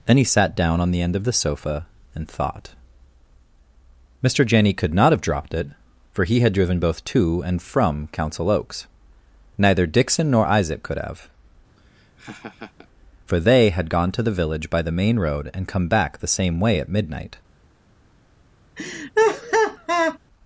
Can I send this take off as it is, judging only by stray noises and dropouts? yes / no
no